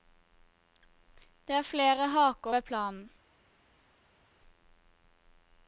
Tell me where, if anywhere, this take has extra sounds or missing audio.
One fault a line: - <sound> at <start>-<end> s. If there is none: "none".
none